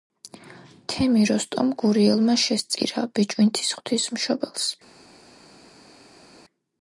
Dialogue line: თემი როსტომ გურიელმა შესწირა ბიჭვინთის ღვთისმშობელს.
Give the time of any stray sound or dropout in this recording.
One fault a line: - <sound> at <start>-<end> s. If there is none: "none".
none